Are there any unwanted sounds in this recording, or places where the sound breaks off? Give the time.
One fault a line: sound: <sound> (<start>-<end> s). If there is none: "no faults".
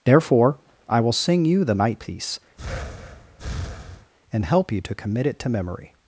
sound: breath (2.6-4.1 s)